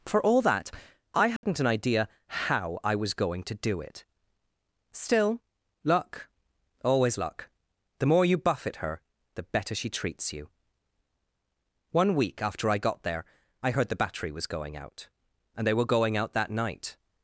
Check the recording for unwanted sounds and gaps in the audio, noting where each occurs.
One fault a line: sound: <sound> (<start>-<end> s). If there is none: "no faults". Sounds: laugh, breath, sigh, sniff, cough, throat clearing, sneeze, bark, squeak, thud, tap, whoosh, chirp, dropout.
sound: dropout (1.4-1.4 s)